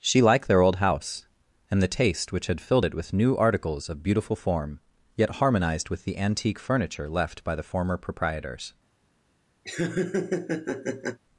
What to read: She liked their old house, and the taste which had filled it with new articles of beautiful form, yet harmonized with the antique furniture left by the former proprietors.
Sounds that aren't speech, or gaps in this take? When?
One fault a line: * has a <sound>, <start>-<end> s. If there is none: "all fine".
* has a laugh, 9.6-11.2 s